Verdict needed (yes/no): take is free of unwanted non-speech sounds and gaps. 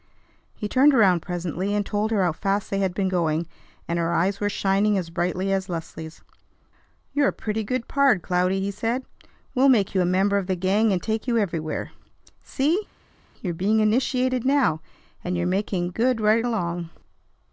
yes